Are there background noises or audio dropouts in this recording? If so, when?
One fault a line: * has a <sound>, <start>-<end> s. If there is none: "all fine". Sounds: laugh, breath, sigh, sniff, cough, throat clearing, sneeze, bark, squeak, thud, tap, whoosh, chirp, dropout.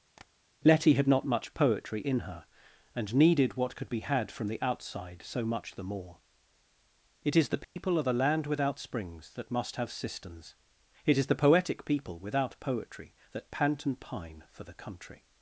* has a tap, 0.2-0.3 s
* has a dropout, 7.6-7.8 s